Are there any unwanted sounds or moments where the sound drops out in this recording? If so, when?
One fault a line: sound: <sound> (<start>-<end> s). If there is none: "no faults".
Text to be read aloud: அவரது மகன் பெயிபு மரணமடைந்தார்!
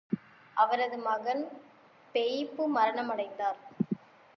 no faults